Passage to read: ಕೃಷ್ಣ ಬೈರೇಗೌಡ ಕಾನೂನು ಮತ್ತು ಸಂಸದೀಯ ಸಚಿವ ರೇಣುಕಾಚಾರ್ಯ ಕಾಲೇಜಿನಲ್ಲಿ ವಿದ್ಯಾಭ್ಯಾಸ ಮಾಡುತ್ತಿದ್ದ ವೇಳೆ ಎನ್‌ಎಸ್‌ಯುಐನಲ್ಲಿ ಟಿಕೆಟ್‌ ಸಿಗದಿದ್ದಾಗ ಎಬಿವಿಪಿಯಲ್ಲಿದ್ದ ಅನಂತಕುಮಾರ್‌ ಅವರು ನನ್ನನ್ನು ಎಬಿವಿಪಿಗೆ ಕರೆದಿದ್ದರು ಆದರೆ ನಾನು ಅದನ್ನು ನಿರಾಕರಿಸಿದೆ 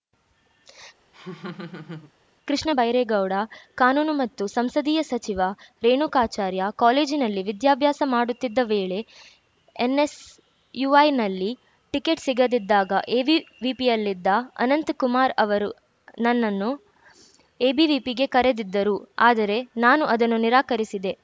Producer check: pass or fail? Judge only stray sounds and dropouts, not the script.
fail